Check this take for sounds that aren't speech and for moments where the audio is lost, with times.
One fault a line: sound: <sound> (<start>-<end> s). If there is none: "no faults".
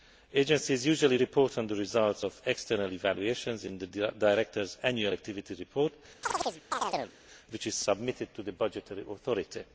sound: chirp (6.2-7.2 s)